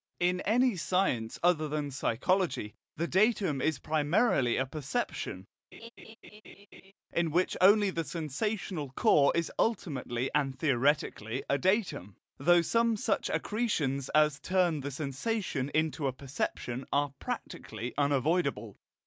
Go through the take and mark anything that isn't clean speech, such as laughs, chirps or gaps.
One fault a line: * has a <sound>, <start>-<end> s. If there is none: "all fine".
* has a laugh, 5.7-6.9 s